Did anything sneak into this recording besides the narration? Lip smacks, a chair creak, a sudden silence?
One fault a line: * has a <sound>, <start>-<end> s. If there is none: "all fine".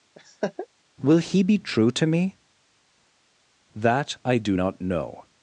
* has a laugh, 0.2-0.7 s